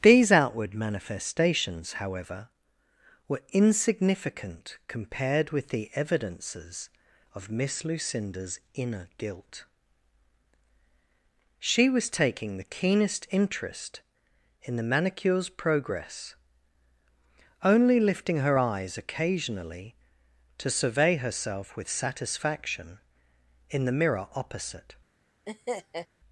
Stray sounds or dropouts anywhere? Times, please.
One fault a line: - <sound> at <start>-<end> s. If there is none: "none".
- laugh at 25.5-26.1 s